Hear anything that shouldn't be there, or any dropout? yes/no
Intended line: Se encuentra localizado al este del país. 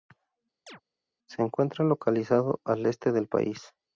yes